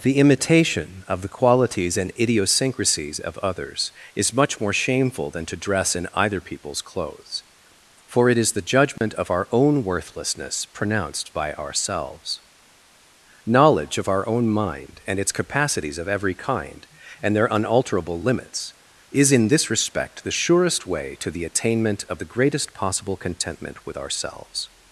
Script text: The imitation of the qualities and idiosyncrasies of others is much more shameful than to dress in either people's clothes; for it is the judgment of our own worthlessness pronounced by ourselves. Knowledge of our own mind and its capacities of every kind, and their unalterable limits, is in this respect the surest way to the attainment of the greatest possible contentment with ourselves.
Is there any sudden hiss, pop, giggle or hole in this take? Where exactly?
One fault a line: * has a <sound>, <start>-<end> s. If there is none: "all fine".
* has a dropout, 9.0-9.0 s